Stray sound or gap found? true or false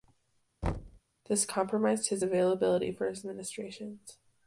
true